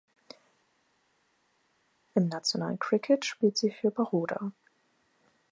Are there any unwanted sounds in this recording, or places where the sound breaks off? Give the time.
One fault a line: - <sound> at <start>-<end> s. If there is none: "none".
none